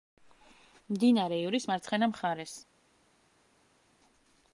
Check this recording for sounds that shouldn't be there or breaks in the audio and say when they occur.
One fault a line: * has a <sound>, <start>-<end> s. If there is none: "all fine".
all fine